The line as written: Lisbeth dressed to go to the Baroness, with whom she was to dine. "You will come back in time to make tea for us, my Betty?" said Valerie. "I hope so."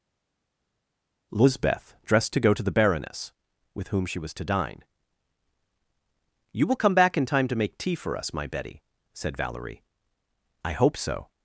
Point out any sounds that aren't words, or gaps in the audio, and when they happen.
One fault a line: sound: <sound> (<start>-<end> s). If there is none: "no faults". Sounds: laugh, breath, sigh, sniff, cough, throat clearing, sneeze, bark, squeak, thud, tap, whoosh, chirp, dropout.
no faults